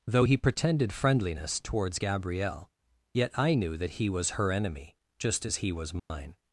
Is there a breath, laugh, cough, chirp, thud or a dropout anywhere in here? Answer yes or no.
yes